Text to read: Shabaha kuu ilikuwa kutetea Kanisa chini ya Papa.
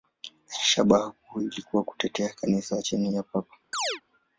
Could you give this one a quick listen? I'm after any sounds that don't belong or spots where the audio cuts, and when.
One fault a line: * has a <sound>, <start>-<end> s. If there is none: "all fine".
* has a chirp, 3.7-4.0 s